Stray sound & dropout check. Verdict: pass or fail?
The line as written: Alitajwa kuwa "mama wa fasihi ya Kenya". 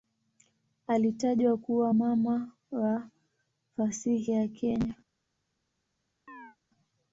fail